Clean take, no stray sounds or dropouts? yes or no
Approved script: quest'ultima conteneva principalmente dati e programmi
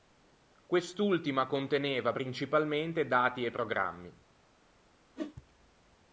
no